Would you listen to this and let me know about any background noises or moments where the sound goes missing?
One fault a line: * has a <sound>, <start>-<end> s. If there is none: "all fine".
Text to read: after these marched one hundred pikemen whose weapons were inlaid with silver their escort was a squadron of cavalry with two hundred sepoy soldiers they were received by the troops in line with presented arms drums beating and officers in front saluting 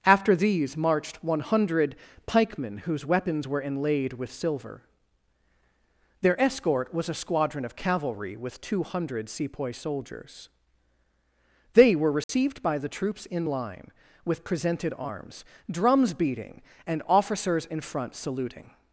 * has a dropout, 12.2-12.3 s